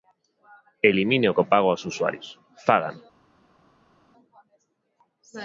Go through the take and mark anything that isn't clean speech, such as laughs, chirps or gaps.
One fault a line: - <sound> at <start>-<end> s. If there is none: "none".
none